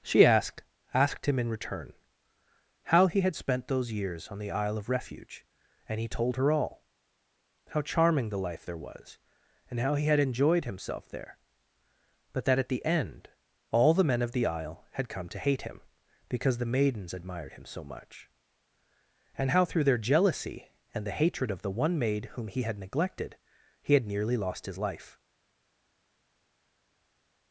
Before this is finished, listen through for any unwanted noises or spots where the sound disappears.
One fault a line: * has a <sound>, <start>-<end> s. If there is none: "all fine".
all fine